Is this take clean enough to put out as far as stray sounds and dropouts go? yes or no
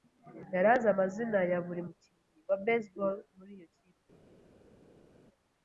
yes